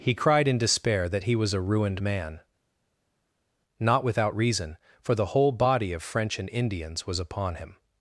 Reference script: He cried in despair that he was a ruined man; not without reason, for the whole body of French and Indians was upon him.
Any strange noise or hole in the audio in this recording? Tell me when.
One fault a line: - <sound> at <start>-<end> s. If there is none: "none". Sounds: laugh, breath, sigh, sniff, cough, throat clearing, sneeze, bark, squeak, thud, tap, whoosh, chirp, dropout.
none